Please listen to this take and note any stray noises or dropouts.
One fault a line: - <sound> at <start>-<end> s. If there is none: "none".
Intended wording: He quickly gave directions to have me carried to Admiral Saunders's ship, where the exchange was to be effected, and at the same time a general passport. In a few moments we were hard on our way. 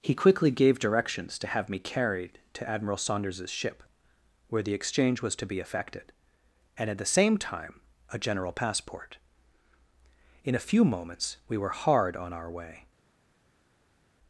none